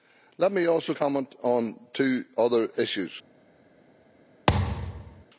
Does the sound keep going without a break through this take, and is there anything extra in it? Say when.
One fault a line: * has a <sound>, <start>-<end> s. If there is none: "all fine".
* has a thud, 4.5-5.2 s